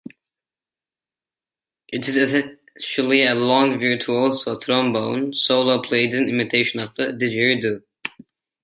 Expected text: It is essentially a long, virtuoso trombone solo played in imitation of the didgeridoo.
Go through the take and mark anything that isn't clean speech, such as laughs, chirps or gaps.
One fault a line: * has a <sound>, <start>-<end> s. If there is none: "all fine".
all fine